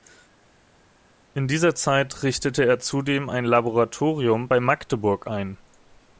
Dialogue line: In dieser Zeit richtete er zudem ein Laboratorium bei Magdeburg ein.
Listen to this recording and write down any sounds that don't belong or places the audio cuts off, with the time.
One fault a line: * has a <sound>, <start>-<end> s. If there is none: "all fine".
all fine